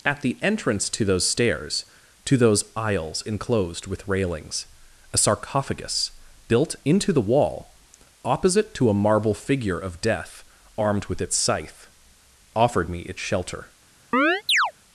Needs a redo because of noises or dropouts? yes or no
yes